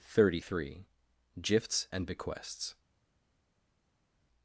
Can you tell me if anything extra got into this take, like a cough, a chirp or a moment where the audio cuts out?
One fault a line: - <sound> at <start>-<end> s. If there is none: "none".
none